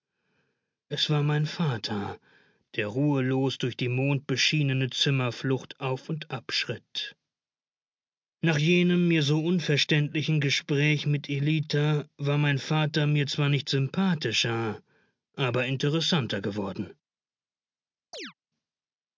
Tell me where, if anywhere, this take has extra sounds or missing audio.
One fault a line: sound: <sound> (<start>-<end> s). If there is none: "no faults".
sound: chirp (18.1-18.3 s)